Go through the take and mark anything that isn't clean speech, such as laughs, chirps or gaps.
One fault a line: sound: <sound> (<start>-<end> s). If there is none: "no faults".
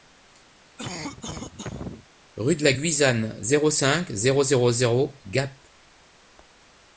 sound: cough (0.8-2.1 s)